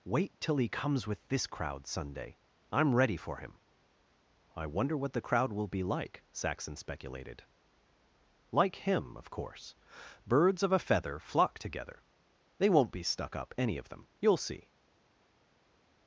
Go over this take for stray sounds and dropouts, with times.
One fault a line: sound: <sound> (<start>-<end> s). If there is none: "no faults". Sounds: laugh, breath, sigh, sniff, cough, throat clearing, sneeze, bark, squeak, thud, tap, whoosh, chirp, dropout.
no faults